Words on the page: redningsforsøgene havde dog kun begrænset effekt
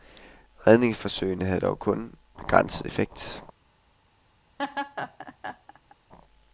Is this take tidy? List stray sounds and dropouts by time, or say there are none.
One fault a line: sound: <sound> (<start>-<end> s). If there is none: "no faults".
sound: laugh (4.6-6.0 s)